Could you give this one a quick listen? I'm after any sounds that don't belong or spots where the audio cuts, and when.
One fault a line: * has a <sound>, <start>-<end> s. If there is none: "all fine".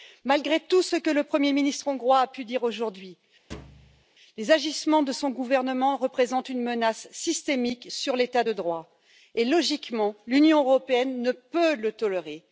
* has a thud, 3.5-4.0 s